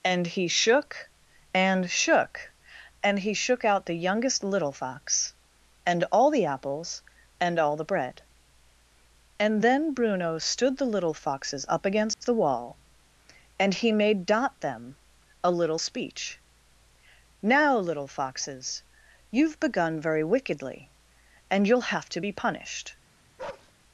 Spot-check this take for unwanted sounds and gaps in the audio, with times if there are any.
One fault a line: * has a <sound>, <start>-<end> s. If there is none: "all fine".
* has a dropout, 12.1-12.2 s
* has a bark, 23.4-23.7 s